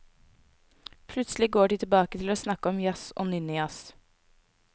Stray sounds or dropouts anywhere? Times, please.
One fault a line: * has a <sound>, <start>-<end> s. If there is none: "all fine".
all fine